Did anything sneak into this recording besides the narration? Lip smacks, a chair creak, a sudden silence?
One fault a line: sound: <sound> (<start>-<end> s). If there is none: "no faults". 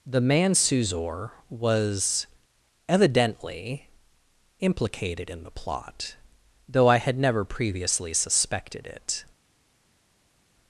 no faults